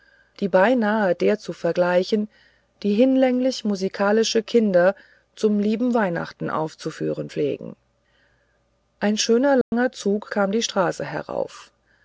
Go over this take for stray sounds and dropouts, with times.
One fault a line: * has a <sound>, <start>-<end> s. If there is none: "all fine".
* has a dropout, 9.6-9.7 s